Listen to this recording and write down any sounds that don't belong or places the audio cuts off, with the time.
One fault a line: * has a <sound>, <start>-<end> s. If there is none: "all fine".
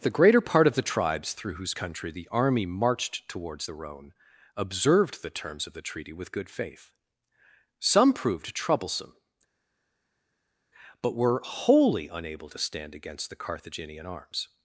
all fine